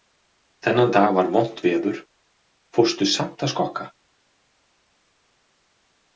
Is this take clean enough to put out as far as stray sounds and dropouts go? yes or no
yes